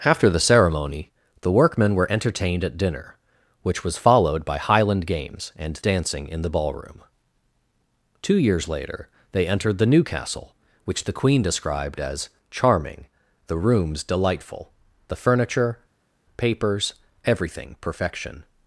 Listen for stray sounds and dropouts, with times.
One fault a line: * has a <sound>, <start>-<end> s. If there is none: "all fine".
all fine